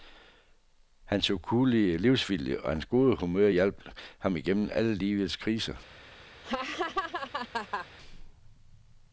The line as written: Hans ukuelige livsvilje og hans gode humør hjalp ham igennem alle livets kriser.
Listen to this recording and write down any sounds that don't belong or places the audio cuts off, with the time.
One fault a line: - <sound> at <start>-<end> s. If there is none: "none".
- laugh at 6.4-7.9 s